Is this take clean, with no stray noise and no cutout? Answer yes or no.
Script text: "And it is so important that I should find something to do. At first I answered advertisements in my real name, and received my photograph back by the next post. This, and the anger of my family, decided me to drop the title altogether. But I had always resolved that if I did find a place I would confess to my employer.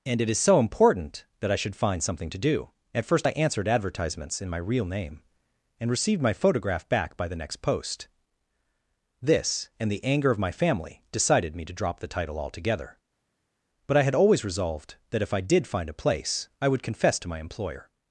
yes